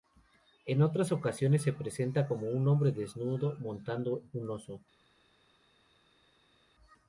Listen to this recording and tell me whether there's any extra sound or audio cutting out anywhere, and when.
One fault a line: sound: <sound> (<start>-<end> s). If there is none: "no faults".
no faults